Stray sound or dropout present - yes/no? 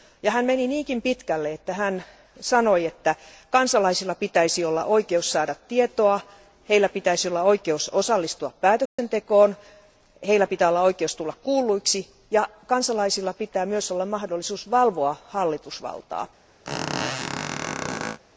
yes